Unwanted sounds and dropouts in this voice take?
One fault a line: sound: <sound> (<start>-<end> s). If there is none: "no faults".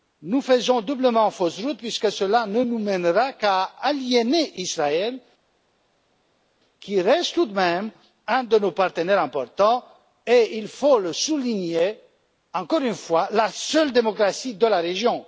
no faults